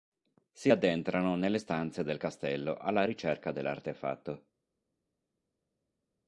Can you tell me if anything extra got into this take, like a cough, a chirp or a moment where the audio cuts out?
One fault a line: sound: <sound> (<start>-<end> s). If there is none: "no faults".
no faults